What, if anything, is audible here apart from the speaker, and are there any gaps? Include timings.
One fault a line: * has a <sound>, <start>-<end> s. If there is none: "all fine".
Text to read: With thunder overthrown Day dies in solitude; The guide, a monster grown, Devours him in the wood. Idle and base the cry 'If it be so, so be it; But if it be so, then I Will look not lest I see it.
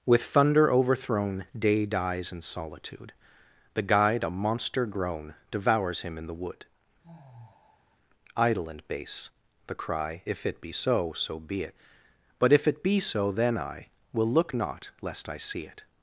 * has a sigh, 7.0-8.0 s